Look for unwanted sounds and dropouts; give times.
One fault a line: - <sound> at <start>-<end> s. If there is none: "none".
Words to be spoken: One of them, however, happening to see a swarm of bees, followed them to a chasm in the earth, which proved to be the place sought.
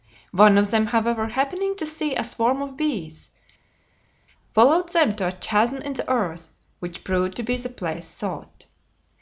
none